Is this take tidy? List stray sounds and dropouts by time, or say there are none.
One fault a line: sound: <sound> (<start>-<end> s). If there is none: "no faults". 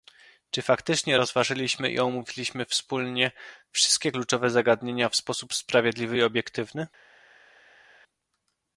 no faults